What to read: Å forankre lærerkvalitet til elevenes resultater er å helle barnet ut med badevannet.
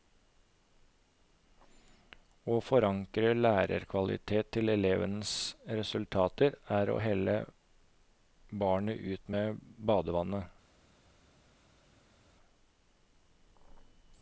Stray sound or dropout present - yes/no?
no